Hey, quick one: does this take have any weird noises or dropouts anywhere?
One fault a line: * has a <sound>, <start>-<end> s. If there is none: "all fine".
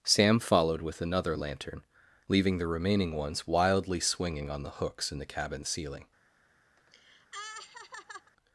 * has a laugh, 6.8-8.3 s